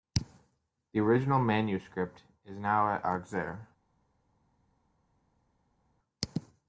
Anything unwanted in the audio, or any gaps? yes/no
no